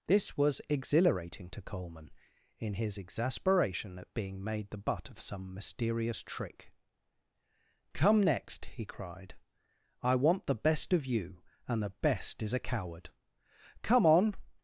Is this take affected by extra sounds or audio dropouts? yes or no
no